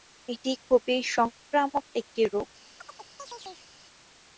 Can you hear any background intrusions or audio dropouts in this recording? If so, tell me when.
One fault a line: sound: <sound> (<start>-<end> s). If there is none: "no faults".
sound: chirp (2.8-3.7 s)